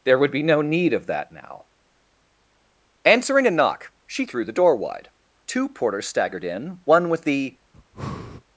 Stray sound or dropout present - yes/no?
yes